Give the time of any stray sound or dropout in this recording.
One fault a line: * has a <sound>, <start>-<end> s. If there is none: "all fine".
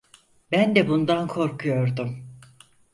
all fine